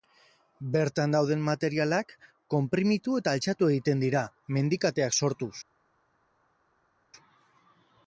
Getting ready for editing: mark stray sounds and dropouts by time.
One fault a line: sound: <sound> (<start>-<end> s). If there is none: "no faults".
no faults